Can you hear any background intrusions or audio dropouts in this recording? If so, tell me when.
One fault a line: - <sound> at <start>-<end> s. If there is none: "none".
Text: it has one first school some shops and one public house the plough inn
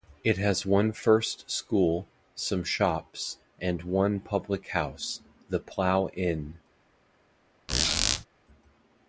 - squeak at 7.7-8.3 s